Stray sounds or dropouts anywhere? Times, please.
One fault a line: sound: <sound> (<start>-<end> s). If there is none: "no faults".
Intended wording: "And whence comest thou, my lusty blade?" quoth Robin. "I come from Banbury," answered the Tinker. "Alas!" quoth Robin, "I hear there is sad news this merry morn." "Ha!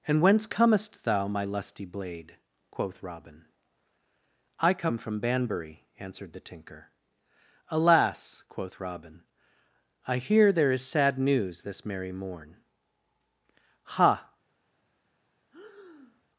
sound: breath (15.5-16.2 s)